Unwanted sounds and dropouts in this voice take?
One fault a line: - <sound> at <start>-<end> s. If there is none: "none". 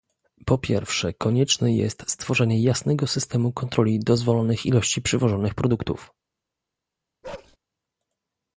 - bark at 7.2-7.6 s